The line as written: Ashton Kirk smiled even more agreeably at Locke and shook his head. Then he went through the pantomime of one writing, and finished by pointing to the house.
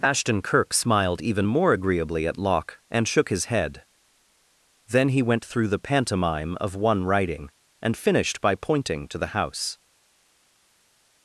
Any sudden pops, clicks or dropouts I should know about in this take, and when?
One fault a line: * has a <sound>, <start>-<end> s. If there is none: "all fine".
all fine